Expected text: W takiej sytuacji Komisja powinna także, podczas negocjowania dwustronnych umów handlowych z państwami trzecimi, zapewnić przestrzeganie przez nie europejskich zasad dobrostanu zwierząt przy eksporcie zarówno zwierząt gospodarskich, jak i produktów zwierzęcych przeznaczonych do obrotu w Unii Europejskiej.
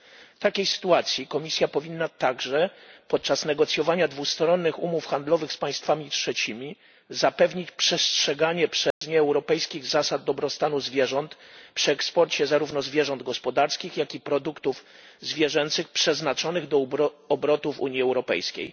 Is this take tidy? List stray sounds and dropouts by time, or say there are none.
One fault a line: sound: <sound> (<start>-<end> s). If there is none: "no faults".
sound: dropout (8.9-9.0 s)